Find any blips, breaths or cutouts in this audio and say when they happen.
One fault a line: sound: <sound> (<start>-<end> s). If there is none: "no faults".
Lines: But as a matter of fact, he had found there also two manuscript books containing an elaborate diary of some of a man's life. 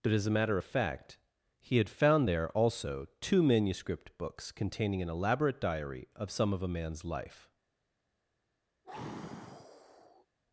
sound: sigh (8.8-10.3 s)